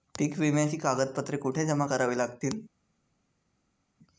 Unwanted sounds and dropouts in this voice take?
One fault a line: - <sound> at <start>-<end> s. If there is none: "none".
none